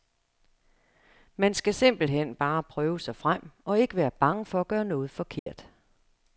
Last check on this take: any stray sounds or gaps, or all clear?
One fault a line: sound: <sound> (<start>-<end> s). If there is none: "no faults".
sound: dropout (5.4-5.5 s)